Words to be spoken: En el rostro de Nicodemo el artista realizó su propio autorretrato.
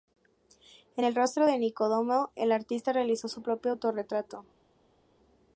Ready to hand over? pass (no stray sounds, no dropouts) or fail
pass